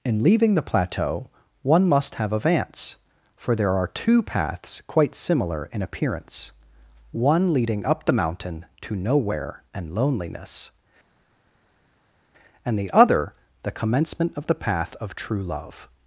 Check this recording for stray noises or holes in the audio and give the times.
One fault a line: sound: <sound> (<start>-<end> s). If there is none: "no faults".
no faults